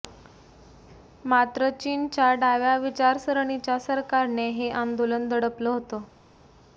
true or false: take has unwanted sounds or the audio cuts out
false